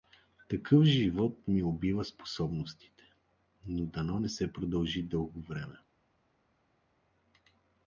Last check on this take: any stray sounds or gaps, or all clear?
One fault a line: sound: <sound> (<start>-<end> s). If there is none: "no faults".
no faults